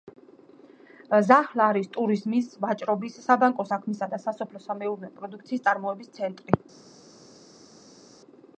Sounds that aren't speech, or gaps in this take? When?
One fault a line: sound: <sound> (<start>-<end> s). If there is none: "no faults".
no faults